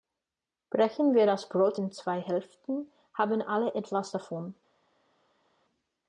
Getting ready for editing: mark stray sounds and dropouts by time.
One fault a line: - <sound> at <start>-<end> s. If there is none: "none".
none